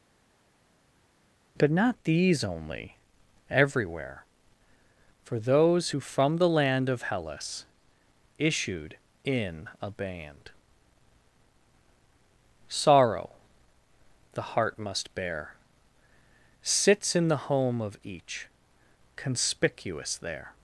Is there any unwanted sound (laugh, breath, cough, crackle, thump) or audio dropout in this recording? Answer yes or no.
no